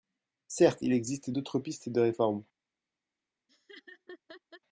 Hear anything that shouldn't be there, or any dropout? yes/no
yes